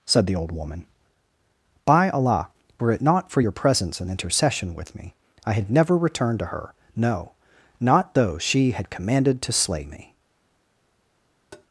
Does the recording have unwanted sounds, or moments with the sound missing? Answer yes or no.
yes